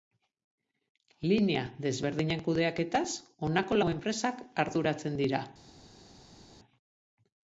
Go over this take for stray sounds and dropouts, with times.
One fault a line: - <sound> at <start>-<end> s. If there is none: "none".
none